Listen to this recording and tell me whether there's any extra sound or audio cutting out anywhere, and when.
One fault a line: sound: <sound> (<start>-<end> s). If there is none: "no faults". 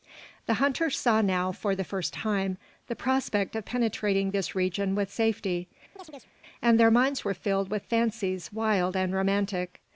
sound: chirp (6.0-6.3 s)